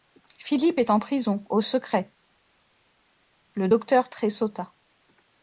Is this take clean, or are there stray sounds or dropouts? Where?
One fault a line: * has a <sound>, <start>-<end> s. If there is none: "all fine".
all fine